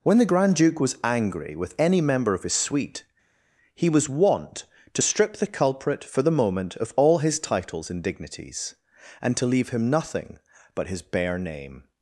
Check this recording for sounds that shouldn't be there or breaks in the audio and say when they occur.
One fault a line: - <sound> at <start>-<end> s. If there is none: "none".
none